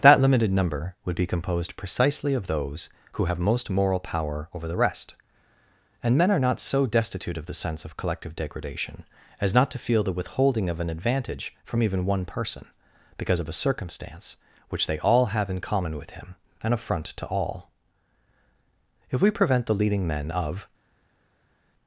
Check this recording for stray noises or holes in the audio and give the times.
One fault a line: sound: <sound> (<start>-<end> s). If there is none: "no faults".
no faults